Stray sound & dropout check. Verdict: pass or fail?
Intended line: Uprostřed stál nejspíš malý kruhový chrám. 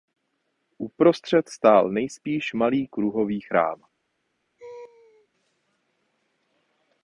fail